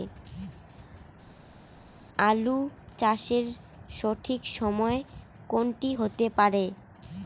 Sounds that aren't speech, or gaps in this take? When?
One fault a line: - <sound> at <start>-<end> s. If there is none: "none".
none